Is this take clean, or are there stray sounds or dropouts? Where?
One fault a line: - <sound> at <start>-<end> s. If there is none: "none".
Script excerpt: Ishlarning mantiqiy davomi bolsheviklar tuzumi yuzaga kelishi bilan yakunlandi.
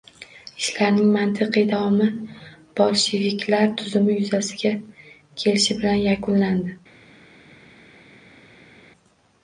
none